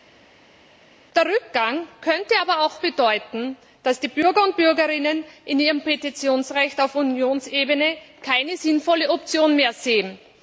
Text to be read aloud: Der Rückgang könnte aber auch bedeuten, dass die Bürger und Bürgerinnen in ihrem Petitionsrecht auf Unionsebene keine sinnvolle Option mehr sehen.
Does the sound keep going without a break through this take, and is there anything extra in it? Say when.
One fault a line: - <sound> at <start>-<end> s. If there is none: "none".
none